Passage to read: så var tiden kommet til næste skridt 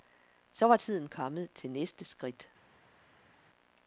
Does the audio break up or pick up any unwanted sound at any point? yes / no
no